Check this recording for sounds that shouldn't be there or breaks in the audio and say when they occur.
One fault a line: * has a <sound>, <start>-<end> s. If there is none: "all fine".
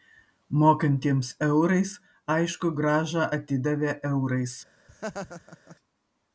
* has a laugh, 4.9-5.8 s